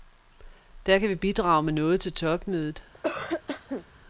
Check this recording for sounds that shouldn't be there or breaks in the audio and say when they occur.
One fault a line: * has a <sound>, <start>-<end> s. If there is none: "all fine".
* has a cough, 2.9-3.8 s